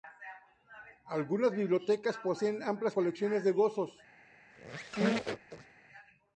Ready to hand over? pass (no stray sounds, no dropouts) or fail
fail